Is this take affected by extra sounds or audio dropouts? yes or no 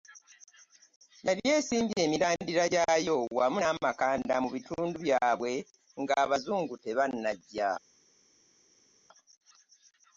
no